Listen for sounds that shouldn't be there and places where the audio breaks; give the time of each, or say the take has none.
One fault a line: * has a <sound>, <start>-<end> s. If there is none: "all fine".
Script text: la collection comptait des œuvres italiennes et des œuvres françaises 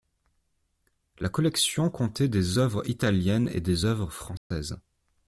* has a dropout, 4.4-4.5 s